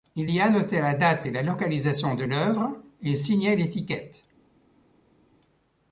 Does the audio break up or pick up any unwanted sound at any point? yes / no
no